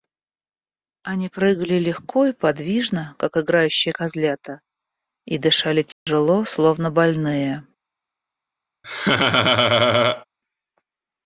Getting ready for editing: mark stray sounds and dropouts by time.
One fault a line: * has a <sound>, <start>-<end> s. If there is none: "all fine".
* has a dropout, 5.9-6.1 s
* has a laugh, 8.8-10.3 s